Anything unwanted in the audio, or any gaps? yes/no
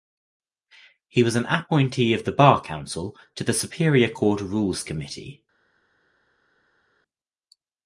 no